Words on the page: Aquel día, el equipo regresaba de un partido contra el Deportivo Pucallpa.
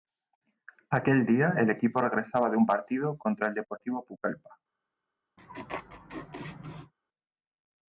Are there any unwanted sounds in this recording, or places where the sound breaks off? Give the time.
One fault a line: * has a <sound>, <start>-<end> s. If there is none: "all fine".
* has a laugh, 5.4-6.9 s